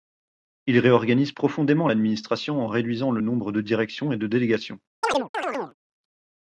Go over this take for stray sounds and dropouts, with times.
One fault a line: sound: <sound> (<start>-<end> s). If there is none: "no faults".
sound: chirp (5.0-5.7 s)